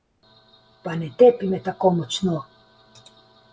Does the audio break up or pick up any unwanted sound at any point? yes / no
no